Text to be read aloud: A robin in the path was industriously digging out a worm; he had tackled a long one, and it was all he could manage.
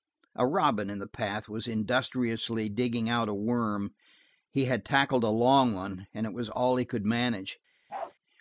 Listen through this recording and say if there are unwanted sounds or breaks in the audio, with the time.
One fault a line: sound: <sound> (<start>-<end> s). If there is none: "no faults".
sound: bark (7.9-8.1 s)